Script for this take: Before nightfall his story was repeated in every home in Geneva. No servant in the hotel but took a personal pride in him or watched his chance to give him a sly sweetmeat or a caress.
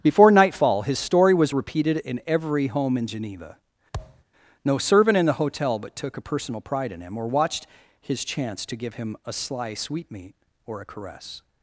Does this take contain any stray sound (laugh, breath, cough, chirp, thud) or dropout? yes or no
yes